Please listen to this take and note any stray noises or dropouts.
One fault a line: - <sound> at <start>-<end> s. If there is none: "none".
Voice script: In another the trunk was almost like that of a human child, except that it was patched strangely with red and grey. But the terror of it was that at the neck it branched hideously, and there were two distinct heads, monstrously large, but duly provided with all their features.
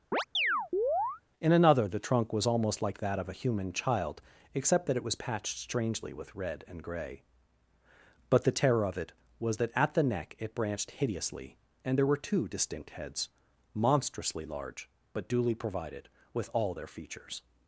- chirp at 0.1-1.2 s